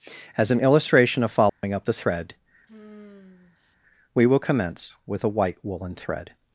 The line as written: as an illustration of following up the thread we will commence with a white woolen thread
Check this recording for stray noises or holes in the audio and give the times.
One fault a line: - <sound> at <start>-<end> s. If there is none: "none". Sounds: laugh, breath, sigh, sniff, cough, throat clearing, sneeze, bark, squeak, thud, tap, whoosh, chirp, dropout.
- dropout at 1.5-1.6 s
- sigh at 2.7-3.8 s